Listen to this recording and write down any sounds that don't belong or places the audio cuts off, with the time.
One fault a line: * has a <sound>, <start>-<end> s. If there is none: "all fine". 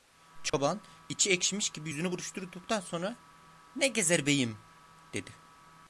* has a dropout, 0.5-0.5 s